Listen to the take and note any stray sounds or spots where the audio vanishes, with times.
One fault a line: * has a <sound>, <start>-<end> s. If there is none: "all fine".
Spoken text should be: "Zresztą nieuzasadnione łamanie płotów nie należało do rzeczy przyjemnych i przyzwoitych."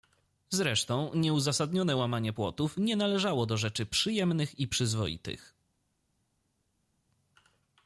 all fine